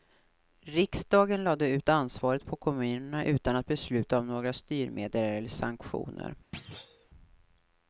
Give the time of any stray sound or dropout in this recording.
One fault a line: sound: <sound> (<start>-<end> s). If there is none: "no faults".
sound: thud (6.5-7.1 s)